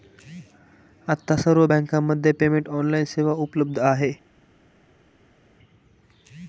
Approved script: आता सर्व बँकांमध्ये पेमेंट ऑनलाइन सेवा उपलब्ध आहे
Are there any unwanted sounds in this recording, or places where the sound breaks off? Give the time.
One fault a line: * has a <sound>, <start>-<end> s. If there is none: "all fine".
all fine